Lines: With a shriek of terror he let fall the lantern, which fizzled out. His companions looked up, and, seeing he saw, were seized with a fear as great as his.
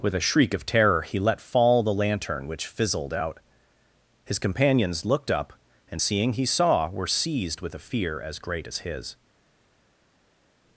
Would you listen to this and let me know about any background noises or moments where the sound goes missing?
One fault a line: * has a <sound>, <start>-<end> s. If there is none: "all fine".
all fine